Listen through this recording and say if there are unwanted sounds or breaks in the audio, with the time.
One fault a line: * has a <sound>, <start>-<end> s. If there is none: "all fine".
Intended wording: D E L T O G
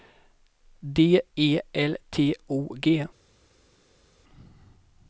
all fine